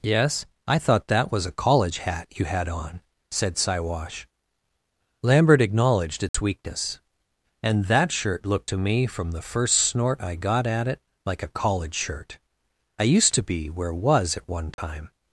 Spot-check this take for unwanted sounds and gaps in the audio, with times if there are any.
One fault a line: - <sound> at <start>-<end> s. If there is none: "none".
- dropout at 6.3-6.3 s
- dropout at 14.7-14.8 s